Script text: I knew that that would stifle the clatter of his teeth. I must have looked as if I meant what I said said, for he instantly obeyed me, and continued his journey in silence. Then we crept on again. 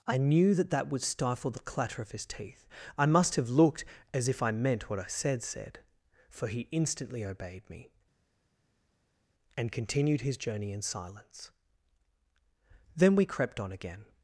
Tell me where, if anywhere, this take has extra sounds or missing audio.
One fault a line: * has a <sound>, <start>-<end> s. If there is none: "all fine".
all fine